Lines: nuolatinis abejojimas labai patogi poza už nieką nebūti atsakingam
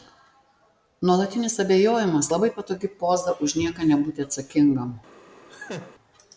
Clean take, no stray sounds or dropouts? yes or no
no